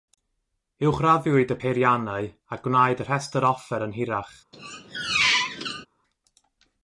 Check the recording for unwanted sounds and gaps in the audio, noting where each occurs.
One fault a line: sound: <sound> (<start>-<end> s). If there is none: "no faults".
sound: squeak (4.5-5.9 s)